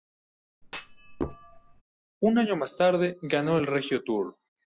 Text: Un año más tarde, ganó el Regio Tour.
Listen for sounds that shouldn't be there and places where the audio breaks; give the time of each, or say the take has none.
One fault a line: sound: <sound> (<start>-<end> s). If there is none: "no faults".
sound: thud (0.6-1.8 s)